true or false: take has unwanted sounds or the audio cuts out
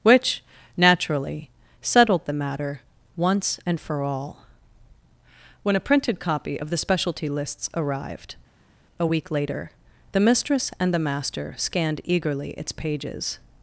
false